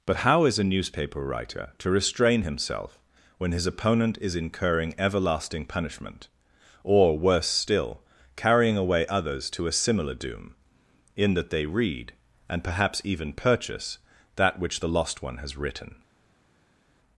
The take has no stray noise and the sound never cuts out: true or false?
true